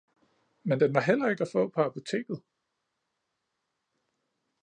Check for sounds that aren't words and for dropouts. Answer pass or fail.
pass